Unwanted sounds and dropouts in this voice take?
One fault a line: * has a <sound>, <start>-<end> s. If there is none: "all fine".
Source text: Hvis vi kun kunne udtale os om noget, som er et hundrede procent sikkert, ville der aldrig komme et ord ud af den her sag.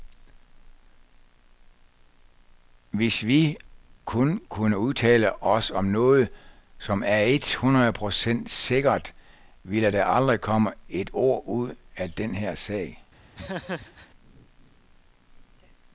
* has a laugh, 13.3-14.1 s